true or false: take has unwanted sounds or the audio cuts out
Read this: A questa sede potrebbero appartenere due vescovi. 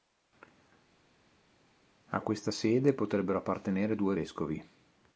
false